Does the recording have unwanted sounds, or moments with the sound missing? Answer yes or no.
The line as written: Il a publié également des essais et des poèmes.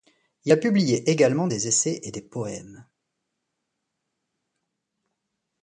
no